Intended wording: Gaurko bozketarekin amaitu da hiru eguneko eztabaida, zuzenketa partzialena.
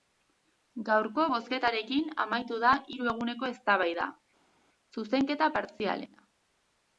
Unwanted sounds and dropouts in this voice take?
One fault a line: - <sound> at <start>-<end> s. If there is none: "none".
none